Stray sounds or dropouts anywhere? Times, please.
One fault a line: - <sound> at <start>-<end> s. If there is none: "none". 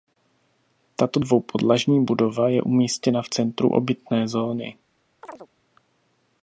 - chirp at 5.2-5.5 s